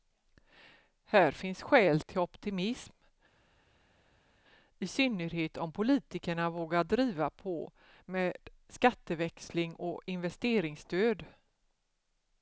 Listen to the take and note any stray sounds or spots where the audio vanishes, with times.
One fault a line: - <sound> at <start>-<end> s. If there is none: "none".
none